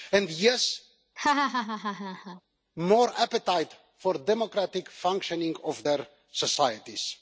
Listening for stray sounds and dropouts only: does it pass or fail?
fail